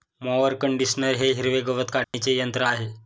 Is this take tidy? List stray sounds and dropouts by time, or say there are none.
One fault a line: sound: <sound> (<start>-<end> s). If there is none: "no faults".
sound: dropout (2.0-2.1 s)